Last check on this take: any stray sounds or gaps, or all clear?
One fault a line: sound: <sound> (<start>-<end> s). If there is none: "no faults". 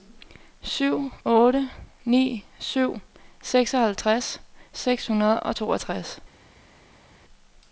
no faults